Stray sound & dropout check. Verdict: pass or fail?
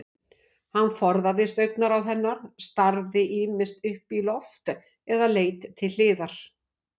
pass